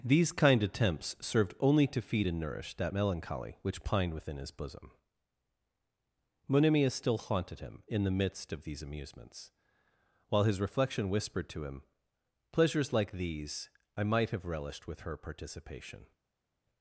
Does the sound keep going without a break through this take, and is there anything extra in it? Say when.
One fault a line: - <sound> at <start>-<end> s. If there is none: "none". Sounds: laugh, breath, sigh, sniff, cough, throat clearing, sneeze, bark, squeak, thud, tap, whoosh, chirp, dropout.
none